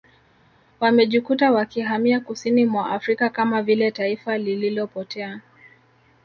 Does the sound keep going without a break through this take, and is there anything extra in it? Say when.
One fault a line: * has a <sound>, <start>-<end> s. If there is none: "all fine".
all fine